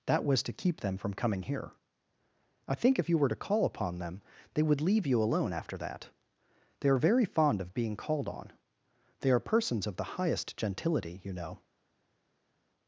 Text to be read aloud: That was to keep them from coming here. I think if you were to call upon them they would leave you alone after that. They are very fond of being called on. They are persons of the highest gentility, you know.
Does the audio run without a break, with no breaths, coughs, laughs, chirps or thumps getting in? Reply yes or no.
yes